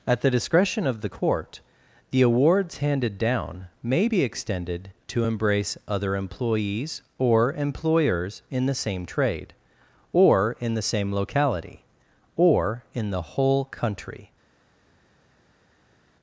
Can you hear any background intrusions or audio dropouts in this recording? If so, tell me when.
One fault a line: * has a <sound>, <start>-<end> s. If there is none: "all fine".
all fine